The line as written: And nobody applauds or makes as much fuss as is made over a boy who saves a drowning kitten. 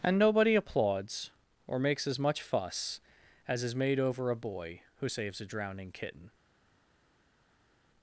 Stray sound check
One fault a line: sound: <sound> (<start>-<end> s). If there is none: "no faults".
no faults